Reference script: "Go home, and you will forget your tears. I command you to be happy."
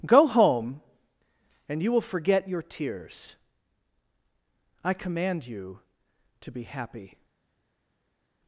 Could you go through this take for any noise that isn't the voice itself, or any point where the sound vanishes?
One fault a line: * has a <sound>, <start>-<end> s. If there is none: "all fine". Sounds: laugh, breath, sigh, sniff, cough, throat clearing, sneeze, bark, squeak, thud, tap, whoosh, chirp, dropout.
all fine